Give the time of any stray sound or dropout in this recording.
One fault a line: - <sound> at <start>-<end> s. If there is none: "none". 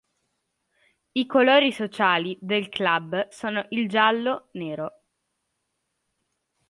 none